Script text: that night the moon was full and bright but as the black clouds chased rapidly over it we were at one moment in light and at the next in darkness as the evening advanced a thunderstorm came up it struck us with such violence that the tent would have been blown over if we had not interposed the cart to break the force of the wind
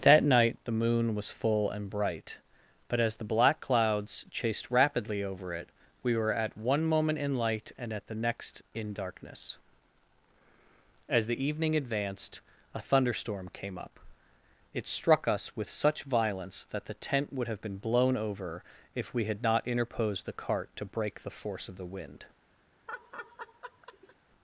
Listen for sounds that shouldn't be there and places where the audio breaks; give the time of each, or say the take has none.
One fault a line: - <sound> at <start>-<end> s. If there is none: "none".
- laugh at 22.9-24.2 s